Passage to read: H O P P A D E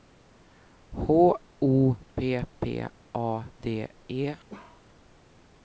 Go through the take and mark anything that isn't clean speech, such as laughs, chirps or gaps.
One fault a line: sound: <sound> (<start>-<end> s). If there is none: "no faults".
sound: bark (4.5-4.9 s)